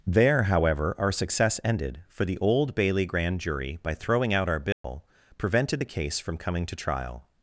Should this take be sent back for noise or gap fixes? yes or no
yes